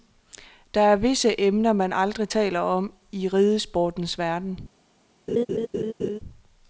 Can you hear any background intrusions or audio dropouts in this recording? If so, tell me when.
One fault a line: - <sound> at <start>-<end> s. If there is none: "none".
- laugh at 5.3-6.2 s